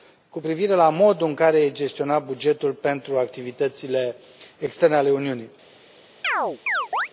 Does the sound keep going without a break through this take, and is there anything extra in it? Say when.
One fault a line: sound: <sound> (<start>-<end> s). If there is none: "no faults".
sound: chirp (6.2-7.1 s)